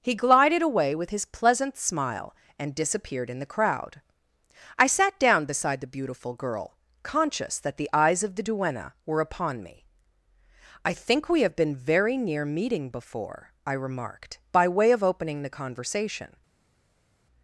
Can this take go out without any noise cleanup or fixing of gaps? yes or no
yes